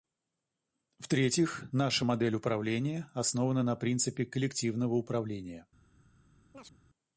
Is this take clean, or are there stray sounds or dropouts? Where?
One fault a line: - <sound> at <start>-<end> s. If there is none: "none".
- chirp at 6.5-6.8 s